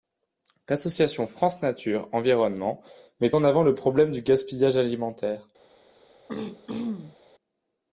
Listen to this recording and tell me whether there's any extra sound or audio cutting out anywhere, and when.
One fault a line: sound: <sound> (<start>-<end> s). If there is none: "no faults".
sound: throat clearing (6.3-7.2 s)